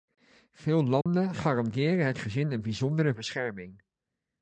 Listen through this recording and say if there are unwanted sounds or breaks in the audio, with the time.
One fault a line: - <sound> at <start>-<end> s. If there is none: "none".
- dropout at 1.0-1.1 s